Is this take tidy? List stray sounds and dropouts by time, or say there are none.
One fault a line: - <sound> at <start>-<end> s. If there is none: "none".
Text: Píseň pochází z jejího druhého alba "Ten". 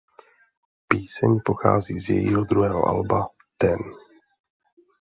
none